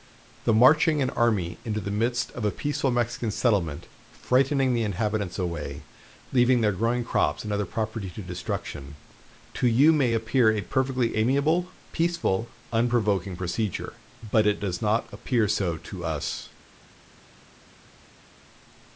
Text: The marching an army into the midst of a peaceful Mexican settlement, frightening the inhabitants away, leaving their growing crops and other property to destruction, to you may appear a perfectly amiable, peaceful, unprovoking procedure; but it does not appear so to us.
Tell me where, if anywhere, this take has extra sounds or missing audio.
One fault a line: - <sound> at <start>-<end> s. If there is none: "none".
none